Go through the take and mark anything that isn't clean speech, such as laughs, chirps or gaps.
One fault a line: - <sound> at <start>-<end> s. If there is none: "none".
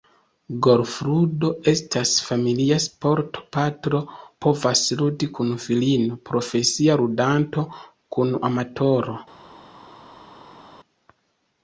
none